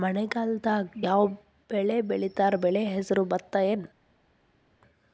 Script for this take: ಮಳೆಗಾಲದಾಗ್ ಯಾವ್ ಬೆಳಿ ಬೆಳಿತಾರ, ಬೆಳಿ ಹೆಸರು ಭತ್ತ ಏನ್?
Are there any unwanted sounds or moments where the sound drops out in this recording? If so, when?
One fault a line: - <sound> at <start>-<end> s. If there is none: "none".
none